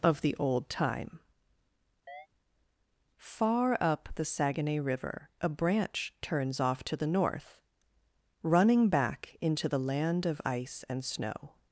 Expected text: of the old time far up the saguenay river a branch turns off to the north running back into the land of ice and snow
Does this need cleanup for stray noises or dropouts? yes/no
yes